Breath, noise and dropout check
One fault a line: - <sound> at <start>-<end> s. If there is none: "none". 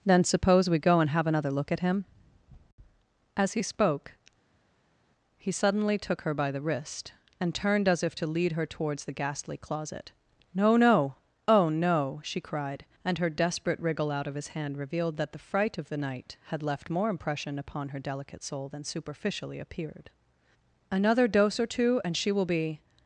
none